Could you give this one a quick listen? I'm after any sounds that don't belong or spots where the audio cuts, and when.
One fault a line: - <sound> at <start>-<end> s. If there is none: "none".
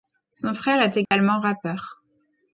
- dropout at 1.1-1.1 s